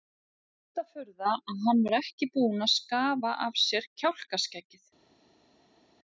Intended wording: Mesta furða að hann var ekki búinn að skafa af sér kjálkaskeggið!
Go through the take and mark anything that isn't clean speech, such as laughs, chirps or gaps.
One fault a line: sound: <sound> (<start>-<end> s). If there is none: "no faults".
no faults